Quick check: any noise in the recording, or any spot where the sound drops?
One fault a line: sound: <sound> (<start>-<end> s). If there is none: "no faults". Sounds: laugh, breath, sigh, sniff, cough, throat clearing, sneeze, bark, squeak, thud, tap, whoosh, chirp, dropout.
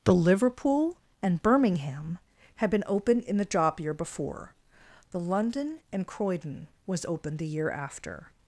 no faults